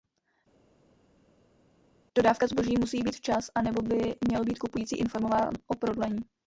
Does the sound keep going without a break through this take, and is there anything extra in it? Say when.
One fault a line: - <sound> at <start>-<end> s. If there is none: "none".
none